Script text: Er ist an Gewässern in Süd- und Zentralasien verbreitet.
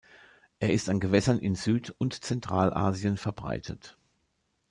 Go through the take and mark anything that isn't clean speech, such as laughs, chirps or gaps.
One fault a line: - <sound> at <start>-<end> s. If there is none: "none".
none